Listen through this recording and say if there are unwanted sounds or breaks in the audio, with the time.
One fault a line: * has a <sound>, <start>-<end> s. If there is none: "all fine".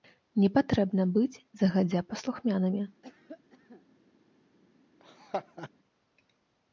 * has a cough, 3.0-3.9 s
* has a laugh, 5.0-5.7 s